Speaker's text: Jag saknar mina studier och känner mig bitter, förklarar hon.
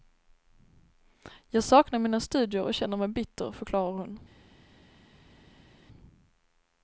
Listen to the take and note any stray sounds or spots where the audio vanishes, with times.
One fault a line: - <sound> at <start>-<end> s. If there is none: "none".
none